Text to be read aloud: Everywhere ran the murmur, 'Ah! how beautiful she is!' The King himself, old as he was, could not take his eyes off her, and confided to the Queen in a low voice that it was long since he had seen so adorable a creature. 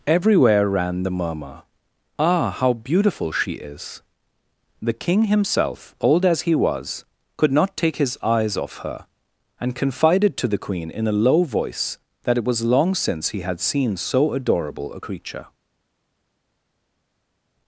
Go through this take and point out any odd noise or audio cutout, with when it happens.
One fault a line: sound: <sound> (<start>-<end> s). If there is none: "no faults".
no faults